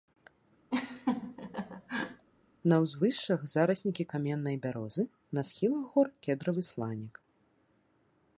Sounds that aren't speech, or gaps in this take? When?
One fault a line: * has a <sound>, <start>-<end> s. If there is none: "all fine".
* has a laugh, 0.7-2.3 s